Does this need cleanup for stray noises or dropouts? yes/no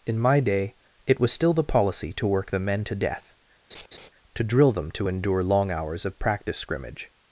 yes